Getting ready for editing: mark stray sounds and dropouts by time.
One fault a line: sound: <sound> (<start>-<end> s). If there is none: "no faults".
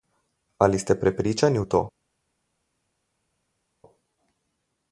no faults